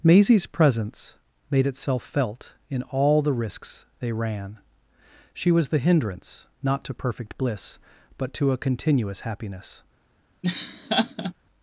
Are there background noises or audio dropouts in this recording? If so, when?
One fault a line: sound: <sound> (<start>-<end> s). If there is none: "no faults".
sound: laugh (10.4-11.3 s)